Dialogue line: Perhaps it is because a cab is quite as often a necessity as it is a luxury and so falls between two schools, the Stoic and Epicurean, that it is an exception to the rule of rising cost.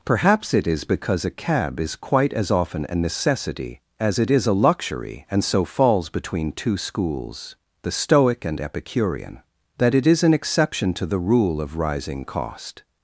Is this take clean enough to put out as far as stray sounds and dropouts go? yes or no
yes